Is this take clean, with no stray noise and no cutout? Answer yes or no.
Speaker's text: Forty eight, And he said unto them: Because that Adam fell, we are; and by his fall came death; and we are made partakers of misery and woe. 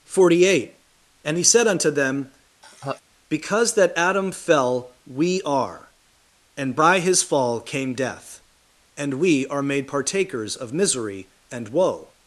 no